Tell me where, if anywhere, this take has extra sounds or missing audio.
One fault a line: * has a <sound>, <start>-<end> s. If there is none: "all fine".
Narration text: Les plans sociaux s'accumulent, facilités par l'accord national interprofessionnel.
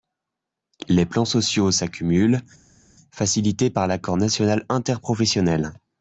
all fine